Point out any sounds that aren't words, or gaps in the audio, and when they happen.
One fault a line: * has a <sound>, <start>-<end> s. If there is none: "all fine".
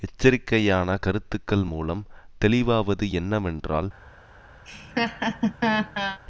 * has a laugh, 4.6-6.2 s